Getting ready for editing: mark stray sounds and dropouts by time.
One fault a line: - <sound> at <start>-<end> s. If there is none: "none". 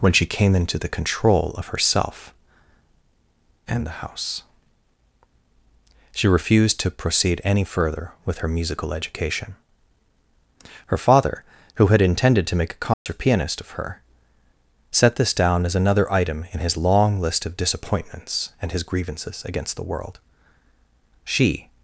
- dropout at 12.9-13.1 s